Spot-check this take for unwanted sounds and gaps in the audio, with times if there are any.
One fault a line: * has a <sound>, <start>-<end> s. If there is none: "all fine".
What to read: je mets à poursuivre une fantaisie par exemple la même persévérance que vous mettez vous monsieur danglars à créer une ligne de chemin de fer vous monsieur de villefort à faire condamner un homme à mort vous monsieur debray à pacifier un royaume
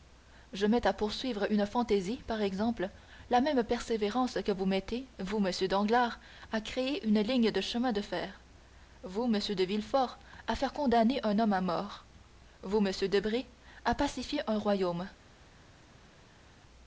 all fine